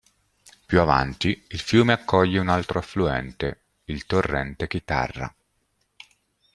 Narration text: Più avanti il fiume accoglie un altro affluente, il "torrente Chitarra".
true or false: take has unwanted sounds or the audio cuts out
false